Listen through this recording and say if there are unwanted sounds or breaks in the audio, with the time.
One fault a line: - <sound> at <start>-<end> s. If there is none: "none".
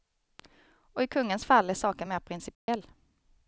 - dropout at 2.5-2.7 s